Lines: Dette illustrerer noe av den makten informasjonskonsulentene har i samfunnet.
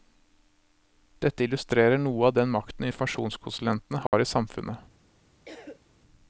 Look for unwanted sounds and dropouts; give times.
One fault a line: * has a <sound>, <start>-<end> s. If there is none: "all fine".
* has a dropout, 4.1-4.1 s
* has a cough, 5.5-5.8 s